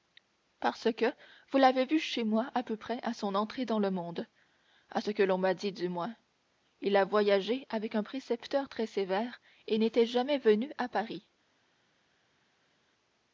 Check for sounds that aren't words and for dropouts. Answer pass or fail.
pass